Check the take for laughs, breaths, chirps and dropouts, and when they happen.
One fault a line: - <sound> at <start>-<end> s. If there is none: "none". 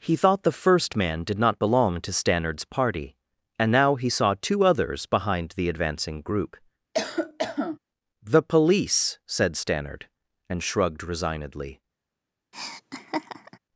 - cough at 6.9-7.8 s
- laugh at 12.5-13.6 s